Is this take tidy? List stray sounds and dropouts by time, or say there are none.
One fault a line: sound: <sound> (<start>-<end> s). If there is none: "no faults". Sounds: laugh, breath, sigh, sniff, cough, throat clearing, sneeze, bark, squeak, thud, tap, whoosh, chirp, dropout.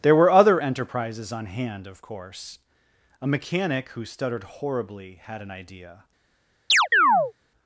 sound: chirp (6.7-7.3 s)